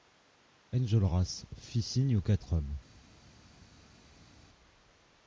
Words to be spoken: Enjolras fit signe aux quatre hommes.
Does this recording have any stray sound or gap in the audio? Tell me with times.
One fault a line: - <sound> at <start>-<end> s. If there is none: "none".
none